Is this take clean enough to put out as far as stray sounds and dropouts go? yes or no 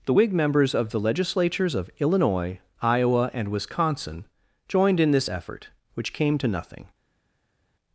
yes